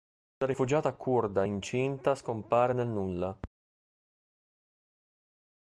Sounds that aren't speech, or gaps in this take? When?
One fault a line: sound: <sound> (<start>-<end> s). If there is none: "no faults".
no faults